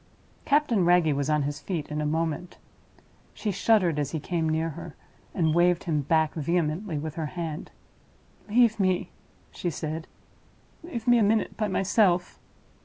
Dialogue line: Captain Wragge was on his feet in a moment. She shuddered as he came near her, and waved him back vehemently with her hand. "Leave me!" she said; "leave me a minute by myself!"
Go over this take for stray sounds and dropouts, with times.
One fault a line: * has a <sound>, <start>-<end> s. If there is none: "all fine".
all fine